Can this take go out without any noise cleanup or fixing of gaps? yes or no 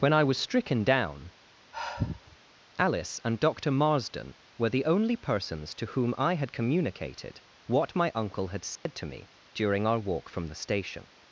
no